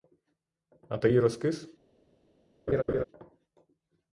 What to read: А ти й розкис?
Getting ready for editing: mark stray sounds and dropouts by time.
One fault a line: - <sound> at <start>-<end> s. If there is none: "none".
- laugh at 2.7-3.0 s